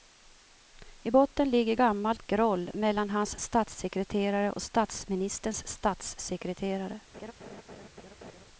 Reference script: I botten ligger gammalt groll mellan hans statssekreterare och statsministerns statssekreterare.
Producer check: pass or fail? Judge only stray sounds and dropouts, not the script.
fail